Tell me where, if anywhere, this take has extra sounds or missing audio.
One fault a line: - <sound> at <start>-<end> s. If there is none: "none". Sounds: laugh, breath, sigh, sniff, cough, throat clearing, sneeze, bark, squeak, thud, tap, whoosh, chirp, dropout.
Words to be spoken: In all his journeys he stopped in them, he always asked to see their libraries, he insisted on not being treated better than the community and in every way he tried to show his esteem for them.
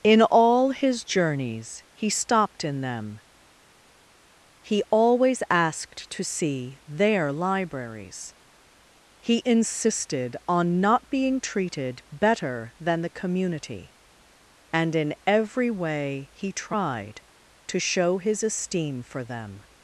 none